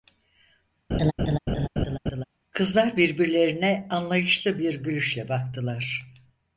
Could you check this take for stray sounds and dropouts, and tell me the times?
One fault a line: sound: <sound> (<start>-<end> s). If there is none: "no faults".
sound: laugh (0.9-2.2 s)